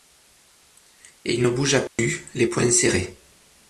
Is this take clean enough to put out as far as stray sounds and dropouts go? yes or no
no